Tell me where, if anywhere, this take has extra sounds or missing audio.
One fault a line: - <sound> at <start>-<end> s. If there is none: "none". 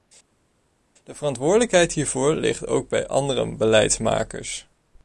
none